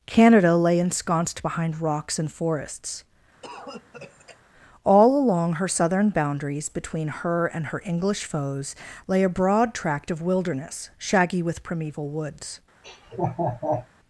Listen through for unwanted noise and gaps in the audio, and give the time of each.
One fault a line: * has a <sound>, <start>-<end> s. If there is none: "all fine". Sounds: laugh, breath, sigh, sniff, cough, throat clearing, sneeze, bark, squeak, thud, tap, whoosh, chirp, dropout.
* has a cough, 3.4-4.4 s
* has a laugh, 12.8-13.9 s